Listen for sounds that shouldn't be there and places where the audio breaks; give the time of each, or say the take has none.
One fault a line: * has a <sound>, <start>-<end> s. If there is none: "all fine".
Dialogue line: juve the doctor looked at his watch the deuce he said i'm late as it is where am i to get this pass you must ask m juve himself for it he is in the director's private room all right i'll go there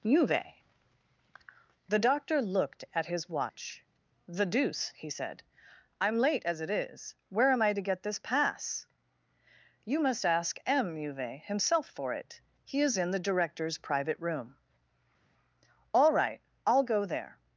all fine